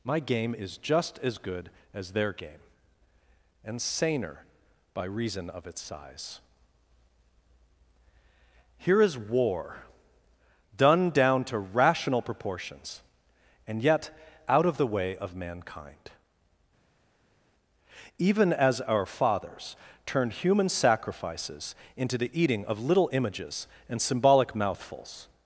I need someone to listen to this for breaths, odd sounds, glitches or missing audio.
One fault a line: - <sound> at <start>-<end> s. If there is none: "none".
none